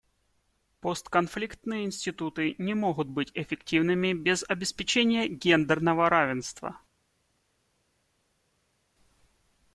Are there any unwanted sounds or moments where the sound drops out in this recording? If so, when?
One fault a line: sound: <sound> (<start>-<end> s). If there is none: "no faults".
no faults